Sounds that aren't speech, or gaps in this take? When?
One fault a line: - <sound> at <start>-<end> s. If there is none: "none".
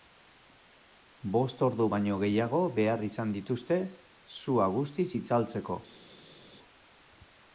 none